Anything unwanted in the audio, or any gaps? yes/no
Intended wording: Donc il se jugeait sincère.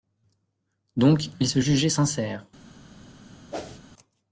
yes